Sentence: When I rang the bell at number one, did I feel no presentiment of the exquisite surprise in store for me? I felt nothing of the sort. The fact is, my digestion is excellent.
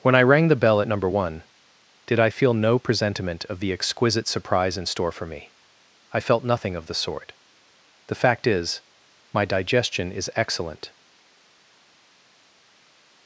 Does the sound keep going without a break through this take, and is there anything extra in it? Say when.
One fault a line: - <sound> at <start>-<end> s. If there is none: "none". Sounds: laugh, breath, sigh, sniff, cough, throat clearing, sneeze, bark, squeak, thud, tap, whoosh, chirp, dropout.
none